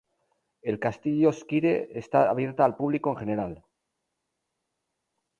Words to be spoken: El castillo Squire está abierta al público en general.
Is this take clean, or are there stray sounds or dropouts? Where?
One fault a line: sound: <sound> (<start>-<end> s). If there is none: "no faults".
no faults